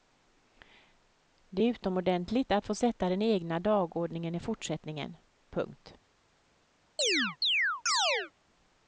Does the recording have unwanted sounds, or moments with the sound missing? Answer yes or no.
yes